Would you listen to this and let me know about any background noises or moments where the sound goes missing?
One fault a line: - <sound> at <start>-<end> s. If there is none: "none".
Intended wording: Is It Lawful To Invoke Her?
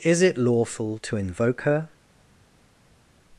none